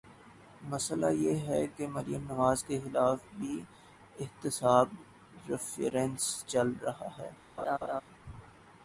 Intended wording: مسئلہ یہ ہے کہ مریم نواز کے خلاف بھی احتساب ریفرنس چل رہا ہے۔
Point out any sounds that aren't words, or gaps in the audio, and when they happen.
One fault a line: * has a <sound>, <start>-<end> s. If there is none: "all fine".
* has a laugh, 7.6-8.0 s